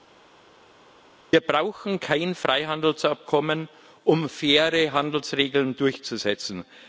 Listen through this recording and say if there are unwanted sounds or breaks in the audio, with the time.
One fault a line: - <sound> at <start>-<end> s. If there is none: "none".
none